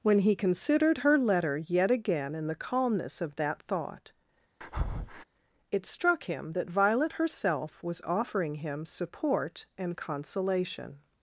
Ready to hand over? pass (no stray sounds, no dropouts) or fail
fail